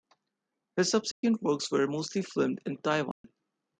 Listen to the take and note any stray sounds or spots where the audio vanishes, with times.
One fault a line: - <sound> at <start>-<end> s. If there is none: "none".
- dropout at 1.1-1.2 s
- dropout at 3.1-3.2 s